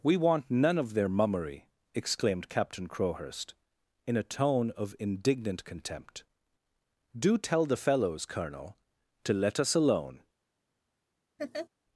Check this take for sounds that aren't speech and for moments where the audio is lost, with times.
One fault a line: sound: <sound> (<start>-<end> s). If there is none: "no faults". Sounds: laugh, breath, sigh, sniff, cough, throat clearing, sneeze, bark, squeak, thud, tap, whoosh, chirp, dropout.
sound: laugh (11.4-11.7 s)